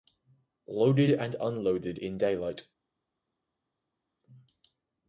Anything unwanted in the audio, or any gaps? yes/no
no